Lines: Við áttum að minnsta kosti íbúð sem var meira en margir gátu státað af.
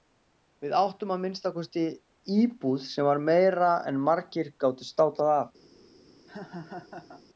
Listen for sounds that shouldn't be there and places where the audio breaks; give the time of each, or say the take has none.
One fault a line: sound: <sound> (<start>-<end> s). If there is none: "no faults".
sound: laugh (6.3-7.2 s)